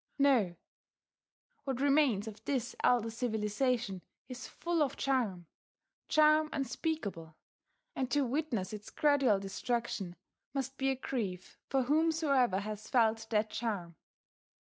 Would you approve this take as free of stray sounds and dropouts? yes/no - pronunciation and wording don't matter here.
yes